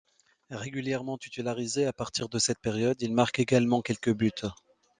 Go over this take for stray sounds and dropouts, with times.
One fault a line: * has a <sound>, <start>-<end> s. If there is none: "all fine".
all fine